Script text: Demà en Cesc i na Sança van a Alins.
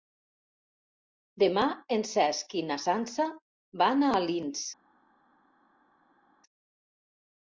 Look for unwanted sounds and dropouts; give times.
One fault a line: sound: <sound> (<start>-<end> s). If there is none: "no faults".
no faults